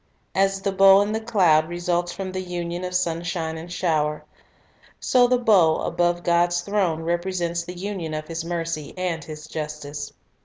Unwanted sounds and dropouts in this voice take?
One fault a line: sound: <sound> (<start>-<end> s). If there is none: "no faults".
no faults